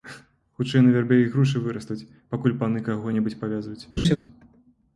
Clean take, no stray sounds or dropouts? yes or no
no